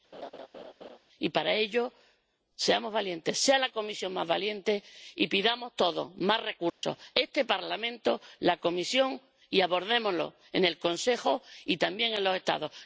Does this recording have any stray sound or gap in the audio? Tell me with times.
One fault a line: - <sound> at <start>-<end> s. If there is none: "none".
- laugh at 0.1-1.0 s
- dropout at 6.7-6.8 s